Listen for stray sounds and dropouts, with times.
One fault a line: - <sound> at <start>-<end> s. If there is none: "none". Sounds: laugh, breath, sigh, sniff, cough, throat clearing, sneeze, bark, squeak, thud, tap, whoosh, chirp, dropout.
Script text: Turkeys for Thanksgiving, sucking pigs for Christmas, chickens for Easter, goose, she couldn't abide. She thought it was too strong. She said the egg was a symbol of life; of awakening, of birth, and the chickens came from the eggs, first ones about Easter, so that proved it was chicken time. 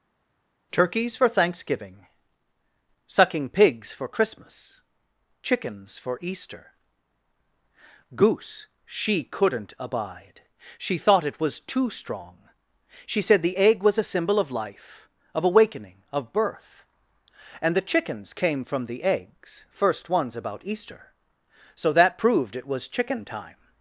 none